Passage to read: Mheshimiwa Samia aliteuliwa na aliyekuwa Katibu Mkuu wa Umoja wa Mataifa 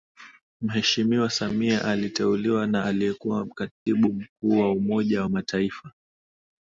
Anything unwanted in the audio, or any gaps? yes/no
yes